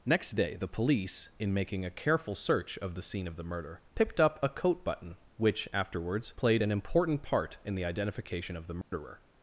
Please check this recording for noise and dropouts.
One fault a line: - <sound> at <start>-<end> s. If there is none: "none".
- dropout at 8.8-8.9 s